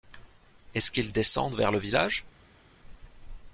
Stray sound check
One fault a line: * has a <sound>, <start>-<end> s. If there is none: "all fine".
all fine